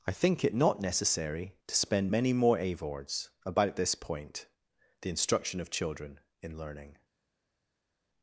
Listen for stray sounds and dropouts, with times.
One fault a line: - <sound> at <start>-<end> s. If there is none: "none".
none